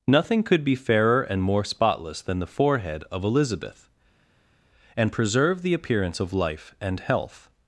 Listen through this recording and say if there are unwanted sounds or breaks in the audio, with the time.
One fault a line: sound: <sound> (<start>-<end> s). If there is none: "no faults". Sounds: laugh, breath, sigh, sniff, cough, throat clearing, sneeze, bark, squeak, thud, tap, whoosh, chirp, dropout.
no faults